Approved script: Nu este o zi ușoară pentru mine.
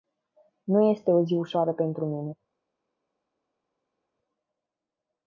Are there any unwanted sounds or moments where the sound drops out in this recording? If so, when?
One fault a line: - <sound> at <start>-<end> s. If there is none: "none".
none